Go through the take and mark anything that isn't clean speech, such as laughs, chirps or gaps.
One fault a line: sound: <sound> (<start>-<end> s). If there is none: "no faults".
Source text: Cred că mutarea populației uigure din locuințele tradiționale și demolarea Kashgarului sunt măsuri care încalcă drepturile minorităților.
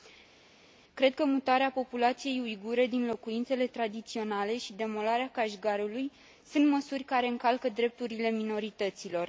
no faults